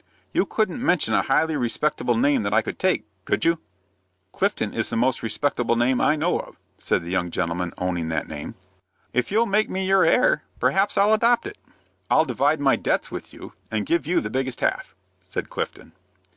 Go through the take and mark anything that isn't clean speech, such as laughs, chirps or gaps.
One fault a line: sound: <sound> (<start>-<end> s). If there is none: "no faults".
no faults